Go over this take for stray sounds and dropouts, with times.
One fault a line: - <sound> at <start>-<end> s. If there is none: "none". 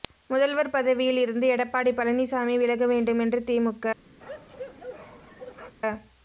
- bark at 4.2-5.8 s